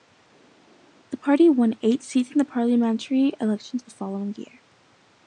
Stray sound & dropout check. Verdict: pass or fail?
pass